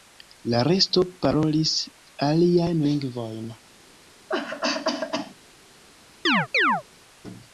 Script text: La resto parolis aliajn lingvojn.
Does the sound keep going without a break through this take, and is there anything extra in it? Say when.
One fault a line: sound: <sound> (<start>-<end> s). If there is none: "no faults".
sound: cough (4.3-5.3 s)
sound: chirp (6.3-6.8 s)